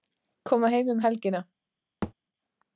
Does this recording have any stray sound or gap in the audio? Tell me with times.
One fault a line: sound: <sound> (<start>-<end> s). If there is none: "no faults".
sound: thud (2.0-2.1 s)